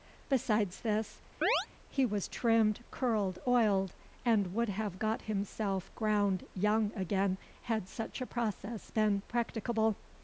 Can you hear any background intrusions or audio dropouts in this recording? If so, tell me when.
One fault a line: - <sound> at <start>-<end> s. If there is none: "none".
- chirp at 1.4-1.7 s